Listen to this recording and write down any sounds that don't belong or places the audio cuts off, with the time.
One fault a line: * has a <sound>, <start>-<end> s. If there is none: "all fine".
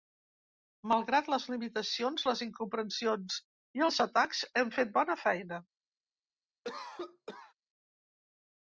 * has a cough, 6.6-7.5 s